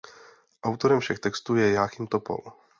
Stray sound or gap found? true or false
false